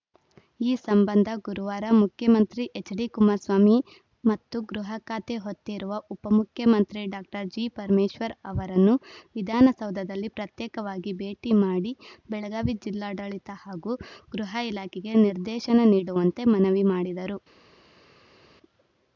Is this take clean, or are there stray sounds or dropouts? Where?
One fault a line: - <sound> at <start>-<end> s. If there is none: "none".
none